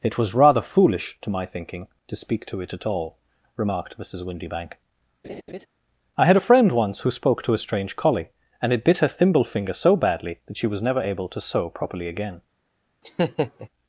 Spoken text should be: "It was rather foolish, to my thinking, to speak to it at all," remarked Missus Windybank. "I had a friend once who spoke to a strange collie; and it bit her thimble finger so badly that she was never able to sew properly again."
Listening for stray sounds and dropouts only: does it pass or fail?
fail